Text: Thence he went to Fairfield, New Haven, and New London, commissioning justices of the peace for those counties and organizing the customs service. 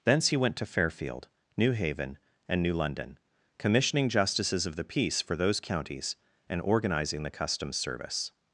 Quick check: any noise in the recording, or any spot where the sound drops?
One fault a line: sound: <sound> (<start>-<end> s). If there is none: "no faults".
no faults